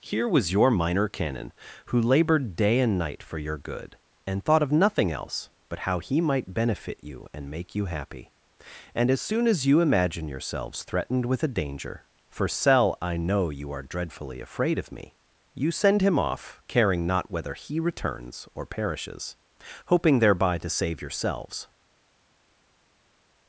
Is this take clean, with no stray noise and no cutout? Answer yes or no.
yes